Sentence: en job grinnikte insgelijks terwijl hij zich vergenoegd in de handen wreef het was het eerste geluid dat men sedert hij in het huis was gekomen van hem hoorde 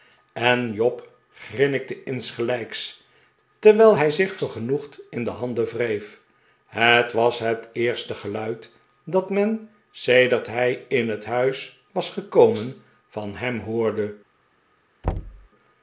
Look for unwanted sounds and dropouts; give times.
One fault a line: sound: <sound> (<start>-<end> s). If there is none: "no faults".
sound: thud (15.0-15.5 s)